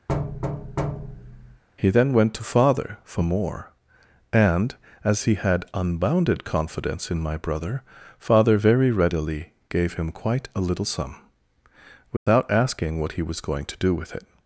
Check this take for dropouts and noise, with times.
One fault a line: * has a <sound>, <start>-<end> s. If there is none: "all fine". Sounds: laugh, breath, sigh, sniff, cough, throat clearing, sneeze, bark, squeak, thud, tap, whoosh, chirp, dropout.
* has a thud, 0.1-1.6 s
* has a dropout, 12.2-12.3 s